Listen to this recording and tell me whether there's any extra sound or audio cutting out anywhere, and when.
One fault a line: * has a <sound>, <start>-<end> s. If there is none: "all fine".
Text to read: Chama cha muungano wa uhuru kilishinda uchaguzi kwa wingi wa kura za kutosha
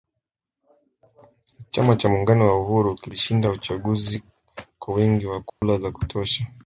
* has a dropout, 5.5-5.6 s